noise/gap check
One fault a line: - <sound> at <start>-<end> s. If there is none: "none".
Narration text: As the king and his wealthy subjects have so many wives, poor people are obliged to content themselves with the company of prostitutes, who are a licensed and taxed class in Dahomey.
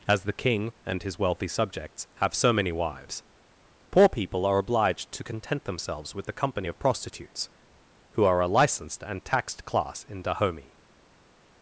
none